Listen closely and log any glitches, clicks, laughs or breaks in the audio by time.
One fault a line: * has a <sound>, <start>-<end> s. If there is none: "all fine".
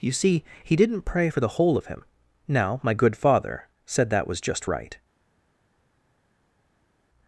all fine